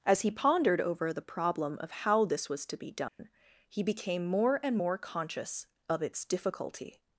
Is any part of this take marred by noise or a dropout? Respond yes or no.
yes